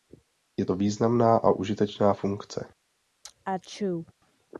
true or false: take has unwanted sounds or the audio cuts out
true